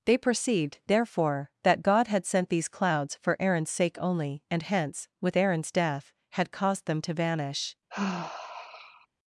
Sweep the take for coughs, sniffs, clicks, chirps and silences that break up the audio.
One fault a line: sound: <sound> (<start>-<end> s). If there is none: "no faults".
sound: sigh (7.9-9.1 s)